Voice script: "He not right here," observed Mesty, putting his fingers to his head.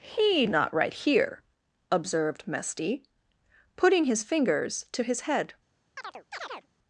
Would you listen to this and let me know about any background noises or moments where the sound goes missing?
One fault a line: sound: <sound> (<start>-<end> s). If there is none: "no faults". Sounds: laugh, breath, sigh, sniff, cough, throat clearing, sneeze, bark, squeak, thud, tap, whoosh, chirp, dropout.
sound: chirp (6.0-6.7 s)